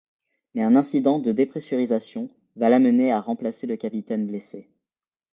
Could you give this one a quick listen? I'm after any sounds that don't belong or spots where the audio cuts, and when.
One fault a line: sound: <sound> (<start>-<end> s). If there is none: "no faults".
no faults